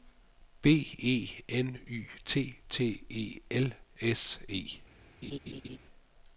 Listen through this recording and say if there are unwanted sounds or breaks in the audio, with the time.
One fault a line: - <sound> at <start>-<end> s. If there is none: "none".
- laugh at 5.2-5.8 s